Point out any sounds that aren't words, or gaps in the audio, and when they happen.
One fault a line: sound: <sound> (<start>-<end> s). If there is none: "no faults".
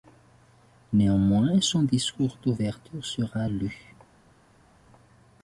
no faults